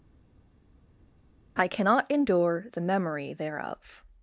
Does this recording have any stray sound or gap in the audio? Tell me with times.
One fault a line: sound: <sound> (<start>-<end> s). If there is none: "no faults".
no faults